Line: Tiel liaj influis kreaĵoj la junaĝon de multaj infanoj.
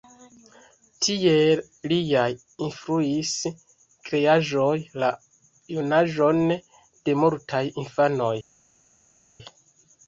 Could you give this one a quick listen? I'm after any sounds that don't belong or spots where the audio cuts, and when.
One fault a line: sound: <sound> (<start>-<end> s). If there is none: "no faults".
no faults